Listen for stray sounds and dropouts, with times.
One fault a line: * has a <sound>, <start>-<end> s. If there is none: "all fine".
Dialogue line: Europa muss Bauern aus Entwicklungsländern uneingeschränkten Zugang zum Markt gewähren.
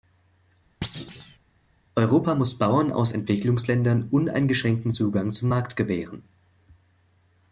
* has a thud, 0.8-1.4 s